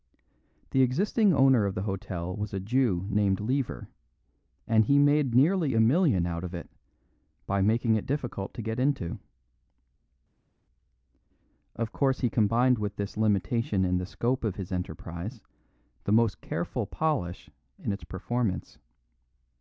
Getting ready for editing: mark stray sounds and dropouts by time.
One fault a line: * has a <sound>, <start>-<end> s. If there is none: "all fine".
all fine